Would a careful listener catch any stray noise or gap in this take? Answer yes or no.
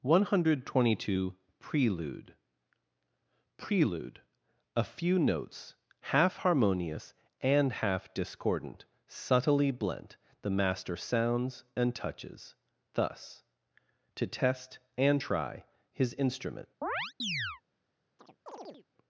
yes